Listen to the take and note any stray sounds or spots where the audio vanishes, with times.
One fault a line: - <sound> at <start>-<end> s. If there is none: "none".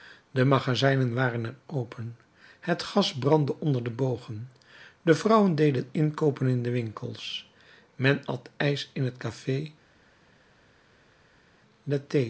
none